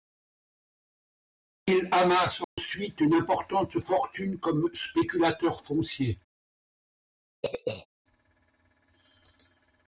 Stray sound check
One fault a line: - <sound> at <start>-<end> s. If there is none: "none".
- dropout at 2.4-2.6 s
- throat clearing at 7.4-7.9 s